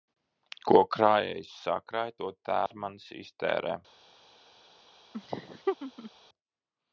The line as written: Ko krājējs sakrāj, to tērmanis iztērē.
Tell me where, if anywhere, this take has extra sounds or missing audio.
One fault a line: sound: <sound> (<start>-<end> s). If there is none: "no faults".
sound: dropout (2.7-2.7 s)
sound: laugh (5.1-6.1 s)